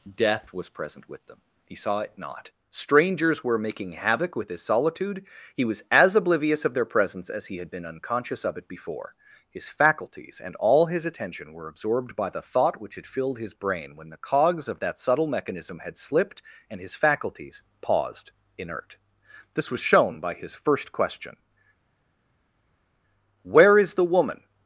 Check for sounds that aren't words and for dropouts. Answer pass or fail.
pass